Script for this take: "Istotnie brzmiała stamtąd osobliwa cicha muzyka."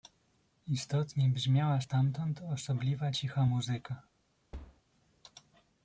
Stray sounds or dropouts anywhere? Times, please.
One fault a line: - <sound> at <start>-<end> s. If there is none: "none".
- thud at 4.5-4.8 s